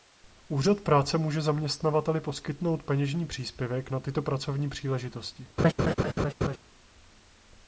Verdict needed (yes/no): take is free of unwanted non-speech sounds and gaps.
no